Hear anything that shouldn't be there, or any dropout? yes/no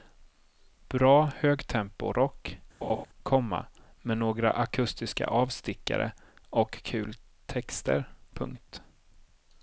yes